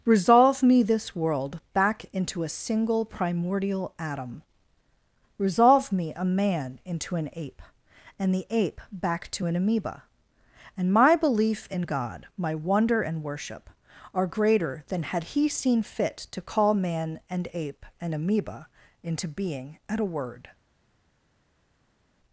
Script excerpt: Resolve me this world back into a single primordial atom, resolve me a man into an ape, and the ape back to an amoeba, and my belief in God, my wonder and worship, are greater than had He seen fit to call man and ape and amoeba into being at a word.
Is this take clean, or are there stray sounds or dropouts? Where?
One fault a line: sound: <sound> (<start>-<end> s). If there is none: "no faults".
no faults